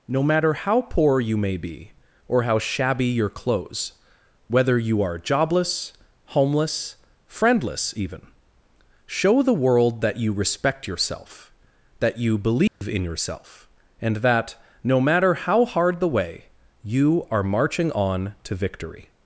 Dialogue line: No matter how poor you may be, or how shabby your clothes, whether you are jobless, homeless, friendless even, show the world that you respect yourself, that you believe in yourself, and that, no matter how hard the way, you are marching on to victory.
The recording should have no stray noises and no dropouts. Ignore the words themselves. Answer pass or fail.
fail